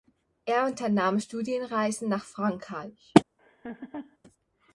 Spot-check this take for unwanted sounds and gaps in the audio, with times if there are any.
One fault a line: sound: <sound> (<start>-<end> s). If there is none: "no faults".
sound: laugh (3.4-4.2 s)